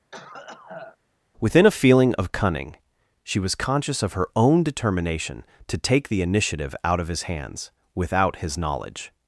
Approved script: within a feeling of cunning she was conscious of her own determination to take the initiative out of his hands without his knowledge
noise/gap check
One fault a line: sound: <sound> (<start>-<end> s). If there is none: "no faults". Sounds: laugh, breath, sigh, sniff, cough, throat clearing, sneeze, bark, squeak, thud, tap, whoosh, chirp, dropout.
sound: cough (0.1-1.0 s)